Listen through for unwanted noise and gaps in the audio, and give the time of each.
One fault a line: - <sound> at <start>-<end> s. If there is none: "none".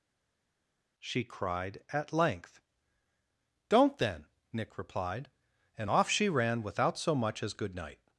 none